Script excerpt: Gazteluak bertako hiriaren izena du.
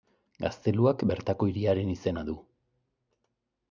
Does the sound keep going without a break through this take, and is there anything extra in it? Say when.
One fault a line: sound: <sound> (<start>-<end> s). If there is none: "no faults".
no faults